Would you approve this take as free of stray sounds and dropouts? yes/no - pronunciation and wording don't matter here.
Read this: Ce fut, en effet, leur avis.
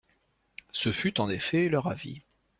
yes